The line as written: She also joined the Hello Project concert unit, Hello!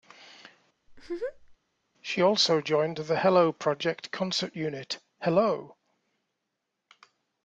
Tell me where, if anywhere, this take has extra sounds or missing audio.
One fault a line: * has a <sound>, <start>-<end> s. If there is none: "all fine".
* has a laugh, 0.9-1.6 s